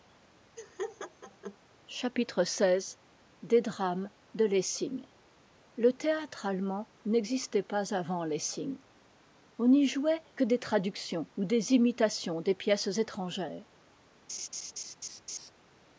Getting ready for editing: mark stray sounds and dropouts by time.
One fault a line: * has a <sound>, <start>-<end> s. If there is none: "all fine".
* has a laugh, 0.6-1.6 s
* has a laugh, 14.3-15.5 s